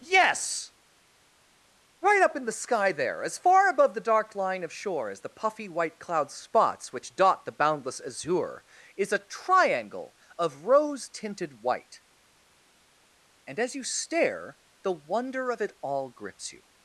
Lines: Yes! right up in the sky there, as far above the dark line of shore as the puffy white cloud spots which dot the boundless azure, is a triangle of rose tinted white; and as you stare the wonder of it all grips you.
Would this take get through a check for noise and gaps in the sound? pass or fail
pass